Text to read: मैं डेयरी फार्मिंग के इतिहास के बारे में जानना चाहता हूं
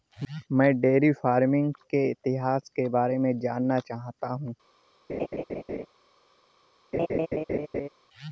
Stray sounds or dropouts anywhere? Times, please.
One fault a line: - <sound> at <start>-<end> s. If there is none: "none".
- laugh at 5.1-5.9 s
- laugh at 6.9-7.9 s